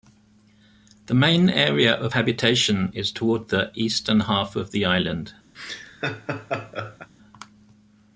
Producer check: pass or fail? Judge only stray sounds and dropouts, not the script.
fail